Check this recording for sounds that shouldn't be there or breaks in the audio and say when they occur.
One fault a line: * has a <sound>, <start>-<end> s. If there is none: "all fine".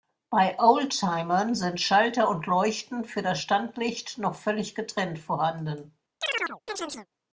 * has a chirp, 6.2-7.1 s